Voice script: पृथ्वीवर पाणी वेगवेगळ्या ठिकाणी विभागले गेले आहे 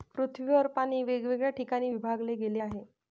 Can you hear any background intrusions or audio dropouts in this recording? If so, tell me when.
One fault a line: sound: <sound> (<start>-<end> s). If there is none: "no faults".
no faults